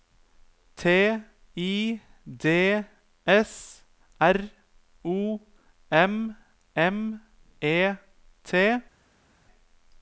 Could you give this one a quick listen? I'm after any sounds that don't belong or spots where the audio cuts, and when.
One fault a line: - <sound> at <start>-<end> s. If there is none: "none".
none